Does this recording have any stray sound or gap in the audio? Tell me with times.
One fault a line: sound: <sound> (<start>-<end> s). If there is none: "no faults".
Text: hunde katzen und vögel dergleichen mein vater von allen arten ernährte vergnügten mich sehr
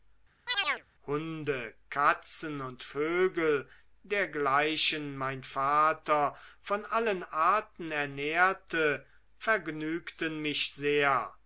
sound: chirp (0.5-0.8 s)